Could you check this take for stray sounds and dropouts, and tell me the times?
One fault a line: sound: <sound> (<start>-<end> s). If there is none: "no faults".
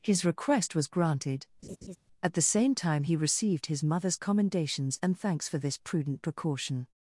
sound: laugh (1.6-2.0 s)